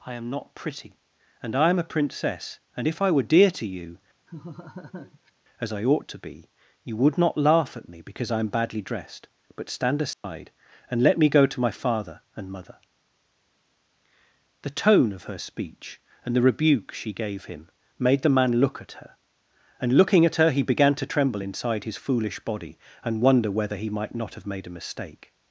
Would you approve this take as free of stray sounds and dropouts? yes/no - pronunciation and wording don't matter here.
no